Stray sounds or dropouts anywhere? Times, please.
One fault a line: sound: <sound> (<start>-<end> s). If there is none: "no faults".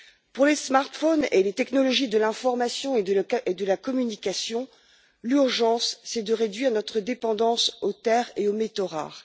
no faults